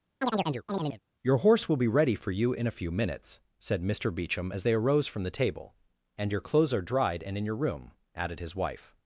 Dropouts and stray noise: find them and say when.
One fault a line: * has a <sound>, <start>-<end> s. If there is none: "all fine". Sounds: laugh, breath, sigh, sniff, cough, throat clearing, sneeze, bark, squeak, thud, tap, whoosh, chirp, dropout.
* has a chirp, 0.2-1.0 s